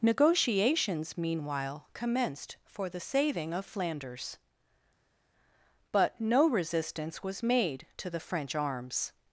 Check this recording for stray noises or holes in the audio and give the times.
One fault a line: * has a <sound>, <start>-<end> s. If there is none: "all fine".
all fine